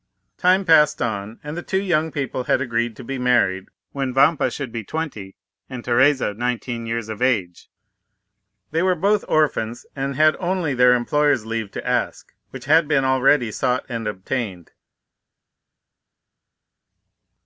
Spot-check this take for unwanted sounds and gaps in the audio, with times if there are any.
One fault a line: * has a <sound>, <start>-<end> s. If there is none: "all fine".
all fine